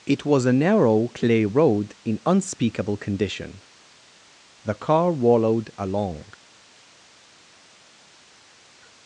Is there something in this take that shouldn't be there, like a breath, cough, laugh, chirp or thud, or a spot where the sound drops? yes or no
no